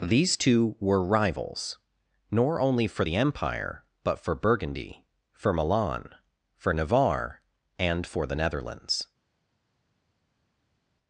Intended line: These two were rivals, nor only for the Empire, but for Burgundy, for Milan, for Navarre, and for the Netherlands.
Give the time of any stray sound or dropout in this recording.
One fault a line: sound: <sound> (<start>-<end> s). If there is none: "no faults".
no faults